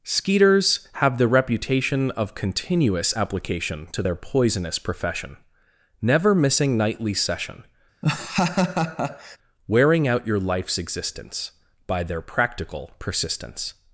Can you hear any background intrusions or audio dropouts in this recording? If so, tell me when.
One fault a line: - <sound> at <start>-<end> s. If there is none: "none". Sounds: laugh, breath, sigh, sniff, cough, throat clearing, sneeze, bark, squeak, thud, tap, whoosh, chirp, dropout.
- laugh at 8.0-9.4 s